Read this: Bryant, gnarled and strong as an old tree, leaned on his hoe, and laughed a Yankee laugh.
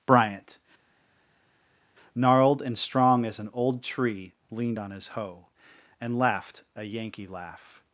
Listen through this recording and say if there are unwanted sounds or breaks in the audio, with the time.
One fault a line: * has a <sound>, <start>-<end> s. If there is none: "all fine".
all fine